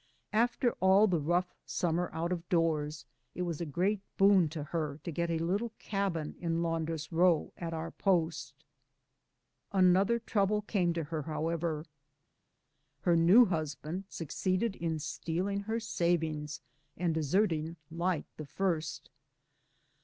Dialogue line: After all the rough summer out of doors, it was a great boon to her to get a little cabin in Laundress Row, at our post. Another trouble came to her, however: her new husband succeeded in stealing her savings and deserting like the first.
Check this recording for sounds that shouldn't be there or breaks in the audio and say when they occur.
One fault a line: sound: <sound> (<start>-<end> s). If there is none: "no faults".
no faults